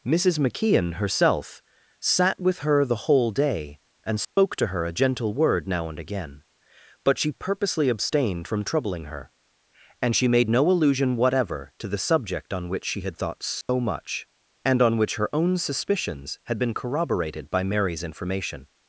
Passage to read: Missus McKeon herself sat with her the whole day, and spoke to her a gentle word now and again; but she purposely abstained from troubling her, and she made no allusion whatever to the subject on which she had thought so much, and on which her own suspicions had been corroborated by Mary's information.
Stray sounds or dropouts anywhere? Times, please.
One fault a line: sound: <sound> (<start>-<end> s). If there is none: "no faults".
sound: dropout (4.2-4.4 s)
sound: dropout (13.6-13.7 s)